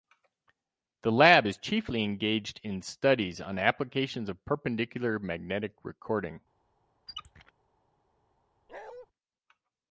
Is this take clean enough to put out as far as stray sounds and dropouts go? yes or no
no